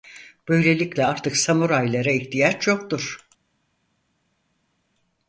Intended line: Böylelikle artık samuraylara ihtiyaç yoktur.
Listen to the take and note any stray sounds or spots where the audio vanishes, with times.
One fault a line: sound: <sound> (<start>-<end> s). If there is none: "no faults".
no faults